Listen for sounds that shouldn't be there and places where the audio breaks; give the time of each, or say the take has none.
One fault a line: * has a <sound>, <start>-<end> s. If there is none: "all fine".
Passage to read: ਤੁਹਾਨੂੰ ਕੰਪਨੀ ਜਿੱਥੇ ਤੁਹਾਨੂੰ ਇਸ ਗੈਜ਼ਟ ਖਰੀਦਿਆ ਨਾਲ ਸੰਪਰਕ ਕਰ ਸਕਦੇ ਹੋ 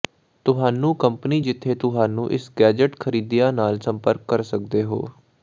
all fine